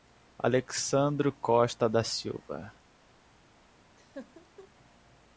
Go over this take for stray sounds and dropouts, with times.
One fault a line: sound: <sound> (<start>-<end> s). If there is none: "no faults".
sound: laugh (4.0-4.7 s)